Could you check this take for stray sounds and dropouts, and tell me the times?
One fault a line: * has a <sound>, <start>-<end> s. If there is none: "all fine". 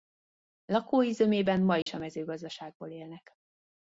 * has a dropout, 1.8-1.9 s